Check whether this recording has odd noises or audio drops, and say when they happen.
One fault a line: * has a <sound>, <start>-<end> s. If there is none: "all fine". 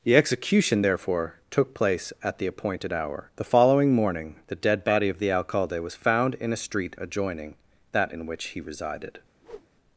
* has a whoosh, 9.4-9.7 s